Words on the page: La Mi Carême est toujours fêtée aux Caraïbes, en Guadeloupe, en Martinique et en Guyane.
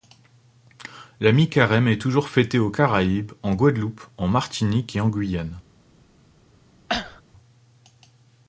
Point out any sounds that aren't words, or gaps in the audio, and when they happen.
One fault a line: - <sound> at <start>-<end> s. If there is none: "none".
- cough at 6.9-7.2 s